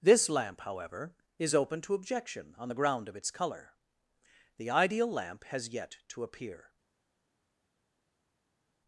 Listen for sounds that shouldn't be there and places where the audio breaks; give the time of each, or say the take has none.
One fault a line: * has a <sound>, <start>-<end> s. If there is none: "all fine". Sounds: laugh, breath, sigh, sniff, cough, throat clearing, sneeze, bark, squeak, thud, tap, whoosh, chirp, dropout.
all fine